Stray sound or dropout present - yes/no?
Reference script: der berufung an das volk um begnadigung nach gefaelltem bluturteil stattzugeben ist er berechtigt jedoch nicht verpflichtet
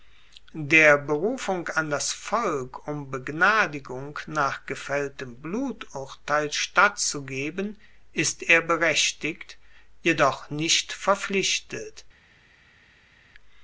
no